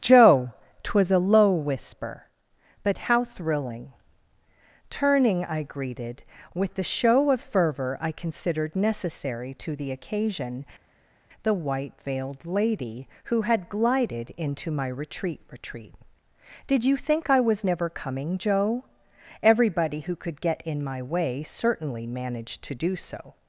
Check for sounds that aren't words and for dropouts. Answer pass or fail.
pass